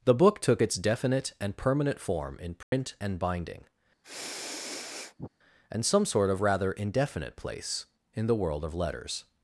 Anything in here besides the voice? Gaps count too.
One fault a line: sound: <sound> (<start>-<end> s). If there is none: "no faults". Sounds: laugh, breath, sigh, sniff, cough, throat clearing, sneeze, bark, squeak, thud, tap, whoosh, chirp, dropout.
sound: dropout (2.6-2.7 s)
sound: sniff (4.0-5.3 s)